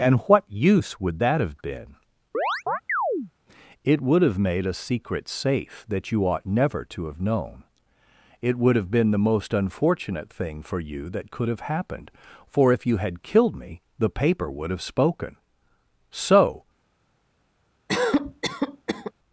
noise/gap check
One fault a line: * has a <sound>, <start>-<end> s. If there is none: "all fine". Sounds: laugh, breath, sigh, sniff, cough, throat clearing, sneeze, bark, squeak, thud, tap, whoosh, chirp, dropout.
* has a chirp, 2.3-3.3 s
* has a cough, 17.9-19.1 s